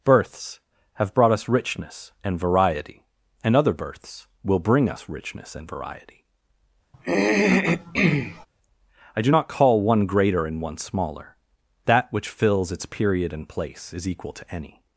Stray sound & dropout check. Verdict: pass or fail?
fail